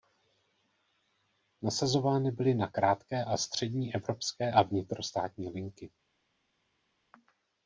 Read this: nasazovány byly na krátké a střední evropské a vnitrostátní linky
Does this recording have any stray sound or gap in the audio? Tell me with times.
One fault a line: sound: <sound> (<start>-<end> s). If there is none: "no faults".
no faults